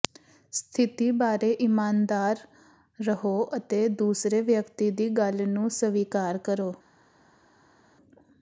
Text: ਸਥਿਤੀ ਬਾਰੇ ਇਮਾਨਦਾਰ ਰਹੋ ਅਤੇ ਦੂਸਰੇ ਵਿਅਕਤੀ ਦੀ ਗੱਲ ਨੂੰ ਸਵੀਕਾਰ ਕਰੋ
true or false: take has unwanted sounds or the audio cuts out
false